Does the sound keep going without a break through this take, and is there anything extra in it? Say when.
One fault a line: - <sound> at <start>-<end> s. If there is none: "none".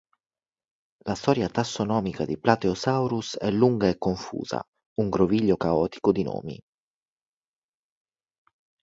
none